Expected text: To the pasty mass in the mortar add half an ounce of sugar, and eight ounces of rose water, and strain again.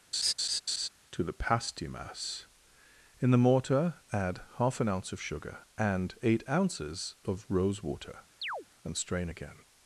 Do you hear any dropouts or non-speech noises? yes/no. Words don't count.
yes